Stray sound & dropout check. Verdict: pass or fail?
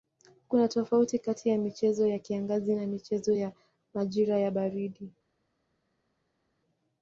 pass